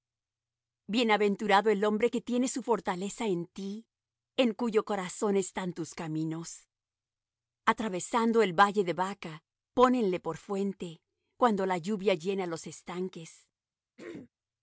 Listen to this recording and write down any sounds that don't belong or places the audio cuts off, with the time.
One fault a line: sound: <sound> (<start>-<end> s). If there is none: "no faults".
sound: throat clearing (14.0-14.3 s)